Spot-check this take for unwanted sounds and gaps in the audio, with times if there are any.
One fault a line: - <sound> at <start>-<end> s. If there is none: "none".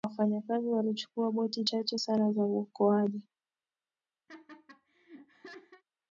- laugh at 4.3-5.8 s